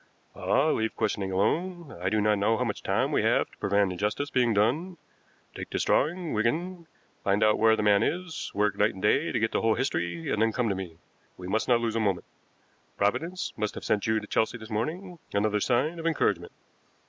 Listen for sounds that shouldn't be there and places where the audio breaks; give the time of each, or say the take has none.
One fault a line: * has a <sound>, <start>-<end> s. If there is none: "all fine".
all fine